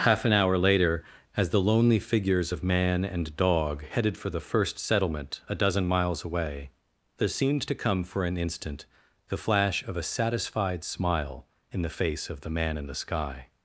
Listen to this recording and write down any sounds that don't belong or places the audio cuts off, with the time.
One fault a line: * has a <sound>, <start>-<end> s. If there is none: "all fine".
all fine